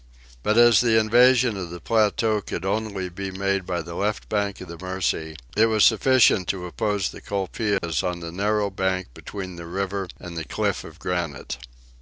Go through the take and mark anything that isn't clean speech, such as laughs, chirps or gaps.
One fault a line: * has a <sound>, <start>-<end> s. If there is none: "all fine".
* has a dropout, 7.8-7.8 s